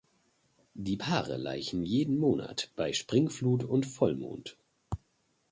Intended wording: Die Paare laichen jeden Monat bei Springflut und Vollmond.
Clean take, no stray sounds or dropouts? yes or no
yes